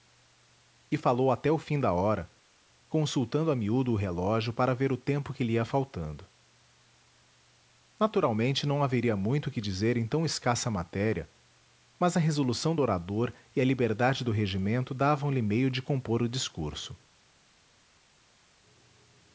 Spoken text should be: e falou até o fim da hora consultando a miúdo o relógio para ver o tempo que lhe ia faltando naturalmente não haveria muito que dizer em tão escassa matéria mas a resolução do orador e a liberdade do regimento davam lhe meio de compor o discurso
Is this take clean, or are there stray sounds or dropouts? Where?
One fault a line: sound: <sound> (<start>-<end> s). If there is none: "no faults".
no faults